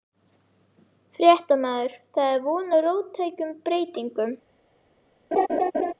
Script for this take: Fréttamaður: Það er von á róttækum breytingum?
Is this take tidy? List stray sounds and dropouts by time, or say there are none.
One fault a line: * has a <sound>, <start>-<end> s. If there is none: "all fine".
* has a laugh, 5.3-5.9 s